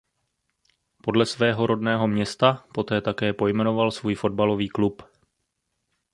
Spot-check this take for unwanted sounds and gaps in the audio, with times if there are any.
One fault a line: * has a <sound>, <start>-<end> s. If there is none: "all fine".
all fine